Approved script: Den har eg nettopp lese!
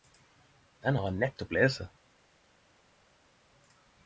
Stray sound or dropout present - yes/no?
no